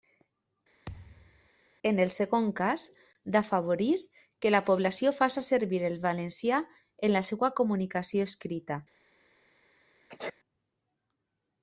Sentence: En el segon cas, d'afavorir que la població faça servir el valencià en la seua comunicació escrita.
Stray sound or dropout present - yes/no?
yes